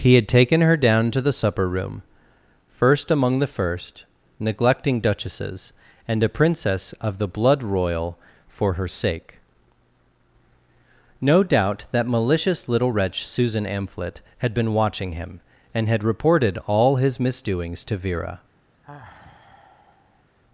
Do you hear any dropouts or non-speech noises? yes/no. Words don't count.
yes